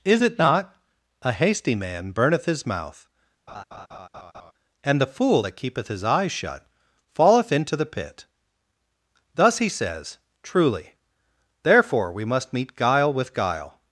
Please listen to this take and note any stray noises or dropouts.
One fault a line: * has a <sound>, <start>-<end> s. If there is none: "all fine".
* has a laugh, 3.5-4.5 s